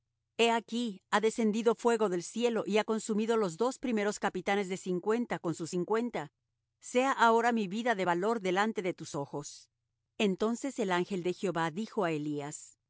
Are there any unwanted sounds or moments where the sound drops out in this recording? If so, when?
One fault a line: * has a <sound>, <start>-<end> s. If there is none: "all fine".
all fine